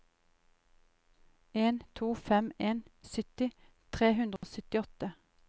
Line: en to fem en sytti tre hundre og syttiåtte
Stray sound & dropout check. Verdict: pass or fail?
fail